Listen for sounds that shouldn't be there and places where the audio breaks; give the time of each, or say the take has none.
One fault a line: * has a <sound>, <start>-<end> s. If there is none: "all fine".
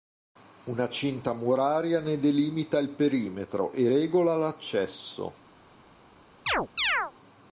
* has a chirp, 6.5-7.1 s